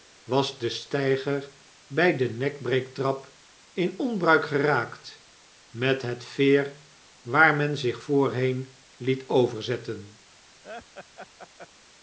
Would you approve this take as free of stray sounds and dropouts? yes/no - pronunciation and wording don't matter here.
no